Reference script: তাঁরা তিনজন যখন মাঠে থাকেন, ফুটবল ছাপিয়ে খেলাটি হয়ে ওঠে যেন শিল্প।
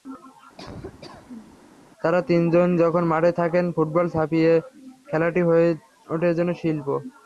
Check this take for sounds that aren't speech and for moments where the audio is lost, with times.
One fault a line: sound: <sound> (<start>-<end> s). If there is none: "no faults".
sound: laugh (0.6-1.6 s)